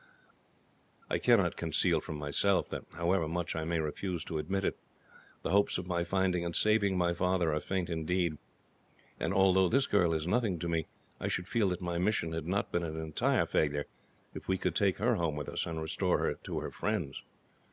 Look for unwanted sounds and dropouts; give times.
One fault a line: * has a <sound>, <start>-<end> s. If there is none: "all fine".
all fine